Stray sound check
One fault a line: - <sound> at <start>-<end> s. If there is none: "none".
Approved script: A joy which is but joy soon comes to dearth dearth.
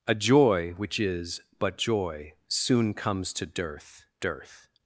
none